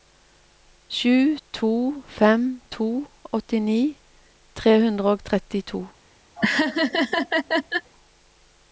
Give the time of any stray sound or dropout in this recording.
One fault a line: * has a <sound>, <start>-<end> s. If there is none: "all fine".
* has a laugh, 6.4-7.9 s